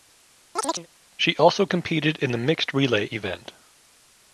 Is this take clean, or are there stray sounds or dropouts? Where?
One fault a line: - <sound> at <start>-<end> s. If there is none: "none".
- chirp at 0.6-0.9 s